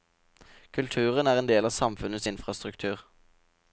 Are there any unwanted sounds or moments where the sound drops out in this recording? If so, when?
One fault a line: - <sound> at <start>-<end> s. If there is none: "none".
none